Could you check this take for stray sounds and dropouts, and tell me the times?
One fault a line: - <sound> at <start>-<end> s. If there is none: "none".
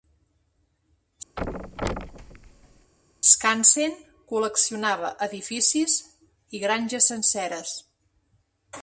- thud at 1.4-2.9 s